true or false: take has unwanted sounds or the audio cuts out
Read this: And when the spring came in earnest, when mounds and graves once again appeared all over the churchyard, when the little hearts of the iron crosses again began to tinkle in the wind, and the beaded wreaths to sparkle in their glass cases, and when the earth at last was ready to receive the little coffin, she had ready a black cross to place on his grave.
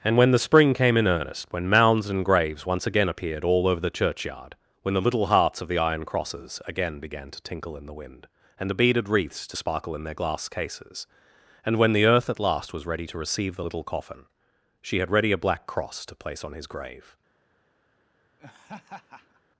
true